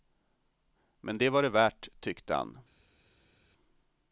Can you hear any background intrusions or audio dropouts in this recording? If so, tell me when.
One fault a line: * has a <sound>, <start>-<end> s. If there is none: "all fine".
all fine